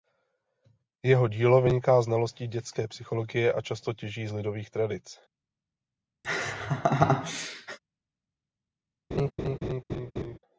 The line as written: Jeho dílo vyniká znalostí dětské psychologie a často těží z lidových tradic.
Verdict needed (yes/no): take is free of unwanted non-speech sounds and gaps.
no